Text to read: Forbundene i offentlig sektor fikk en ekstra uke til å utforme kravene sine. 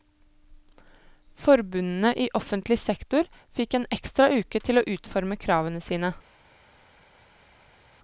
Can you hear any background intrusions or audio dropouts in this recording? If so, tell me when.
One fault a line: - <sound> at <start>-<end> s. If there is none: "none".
none